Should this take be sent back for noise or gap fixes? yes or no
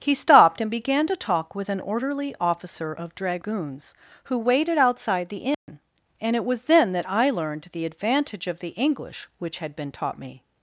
yes